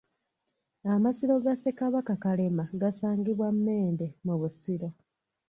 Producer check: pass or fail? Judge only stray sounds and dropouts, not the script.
pass